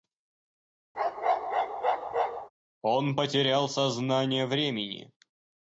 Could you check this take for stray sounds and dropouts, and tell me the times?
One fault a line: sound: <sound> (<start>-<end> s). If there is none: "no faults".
sound: bark (0.9-2.5 s)